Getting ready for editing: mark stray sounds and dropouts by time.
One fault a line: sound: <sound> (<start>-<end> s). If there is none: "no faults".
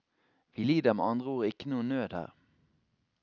no faults